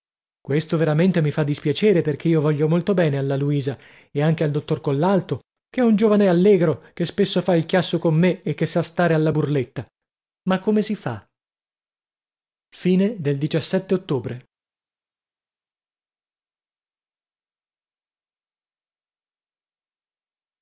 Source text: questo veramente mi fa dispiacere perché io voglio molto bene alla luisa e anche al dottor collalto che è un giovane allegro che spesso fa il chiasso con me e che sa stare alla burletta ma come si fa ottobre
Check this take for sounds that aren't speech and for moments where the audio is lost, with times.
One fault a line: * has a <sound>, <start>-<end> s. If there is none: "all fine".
all fine